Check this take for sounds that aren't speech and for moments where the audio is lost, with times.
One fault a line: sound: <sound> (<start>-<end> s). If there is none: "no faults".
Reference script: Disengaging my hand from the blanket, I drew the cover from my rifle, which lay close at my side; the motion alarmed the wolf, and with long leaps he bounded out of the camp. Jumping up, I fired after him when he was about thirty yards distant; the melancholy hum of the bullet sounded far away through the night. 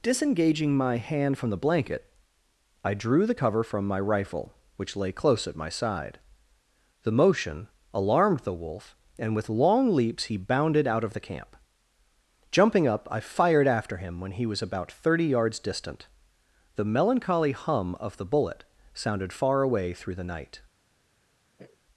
sound: sniff (21.6-21.8 s)